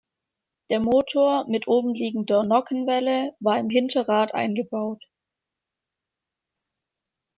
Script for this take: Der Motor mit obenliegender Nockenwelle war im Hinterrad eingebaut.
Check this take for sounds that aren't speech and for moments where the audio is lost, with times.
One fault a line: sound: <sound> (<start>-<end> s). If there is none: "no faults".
no faults